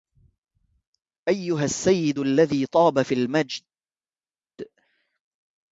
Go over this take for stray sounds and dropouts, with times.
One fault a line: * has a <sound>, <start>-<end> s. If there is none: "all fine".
all fine